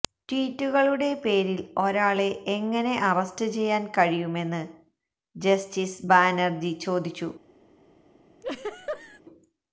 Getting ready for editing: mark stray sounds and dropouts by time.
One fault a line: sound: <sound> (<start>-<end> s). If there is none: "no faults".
sound: laugh (8.4-9.2 s)